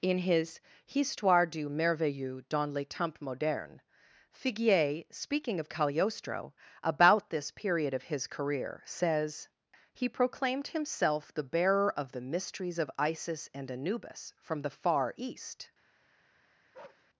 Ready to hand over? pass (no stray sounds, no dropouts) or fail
fail